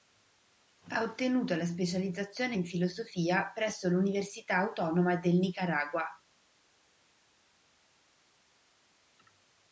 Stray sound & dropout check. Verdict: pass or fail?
pass